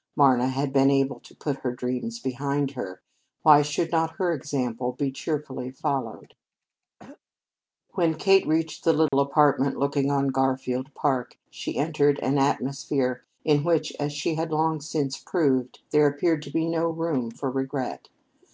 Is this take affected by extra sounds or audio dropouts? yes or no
yes